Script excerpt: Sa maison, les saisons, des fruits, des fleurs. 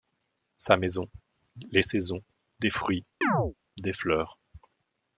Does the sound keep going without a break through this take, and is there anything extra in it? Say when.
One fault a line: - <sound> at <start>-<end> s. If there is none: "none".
- chirp at 3.2-3.5 s